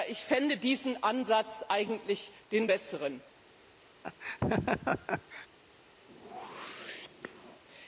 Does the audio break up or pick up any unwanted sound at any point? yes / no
yes